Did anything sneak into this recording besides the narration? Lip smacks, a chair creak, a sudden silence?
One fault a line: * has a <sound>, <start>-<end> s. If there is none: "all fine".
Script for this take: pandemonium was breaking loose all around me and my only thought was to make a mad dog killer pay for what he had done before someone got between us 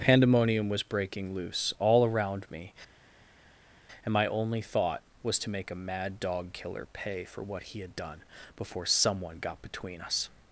all fine